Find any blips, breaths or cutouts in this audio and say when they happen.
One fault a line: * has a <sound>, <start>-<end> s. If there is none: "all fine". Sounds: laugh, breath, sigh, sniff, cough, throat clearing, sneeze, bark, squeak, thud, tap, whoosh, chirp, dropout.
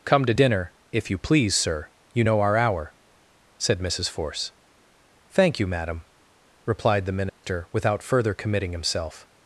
* has a dropout, 7.3-7.4 s